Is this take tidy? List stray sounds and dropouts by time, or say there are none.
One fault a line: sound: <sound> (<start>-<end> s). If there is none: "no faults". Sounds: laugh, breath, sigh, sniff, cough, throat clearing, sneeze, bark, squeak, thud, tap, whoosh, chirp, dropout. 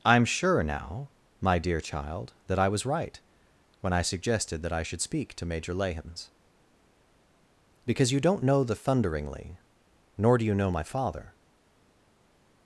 no faults